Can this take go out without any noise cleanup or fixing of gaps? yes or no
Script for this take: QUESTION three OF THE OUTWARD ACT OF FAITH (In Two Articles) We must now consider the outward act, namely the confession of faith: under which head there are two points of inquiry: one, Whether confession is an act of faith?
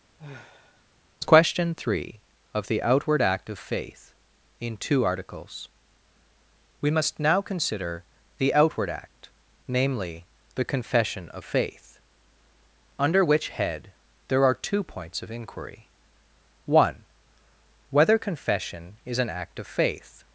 no